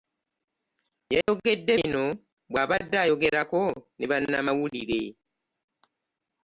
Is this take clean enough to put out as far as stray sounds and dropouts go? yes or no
no